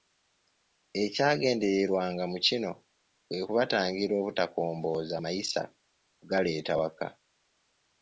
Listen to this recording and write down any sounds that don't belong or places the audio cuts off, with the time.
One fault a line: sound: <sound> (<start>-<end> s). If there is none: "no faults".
no faults